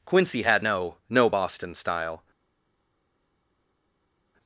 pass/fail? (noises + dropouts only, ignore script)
pass